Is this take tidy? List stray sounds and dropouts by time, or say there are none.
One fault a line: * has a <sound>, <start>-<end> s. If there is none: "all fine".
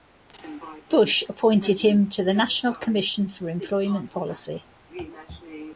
all fine